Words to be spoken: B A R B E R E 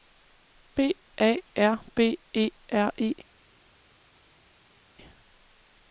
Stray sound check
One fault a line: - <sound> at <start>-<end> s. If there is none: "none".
none